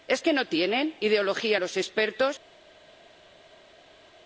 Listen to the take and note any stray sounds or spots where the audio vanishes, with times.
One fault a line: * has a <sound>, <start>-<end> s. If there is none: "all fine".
all fine